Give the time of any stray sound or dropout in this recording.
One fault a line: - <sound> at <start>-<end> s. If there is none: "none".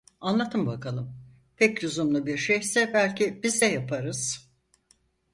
none